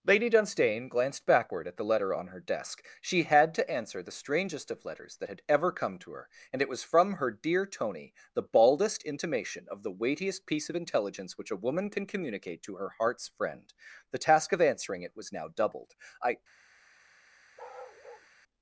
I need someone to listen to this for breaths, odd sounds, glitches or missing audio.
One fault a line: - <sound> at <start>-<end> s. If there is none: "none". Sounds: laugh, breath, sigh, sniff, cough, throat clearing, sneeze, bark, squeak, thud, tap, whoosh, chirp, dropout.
- bark at 17.6-18.3 s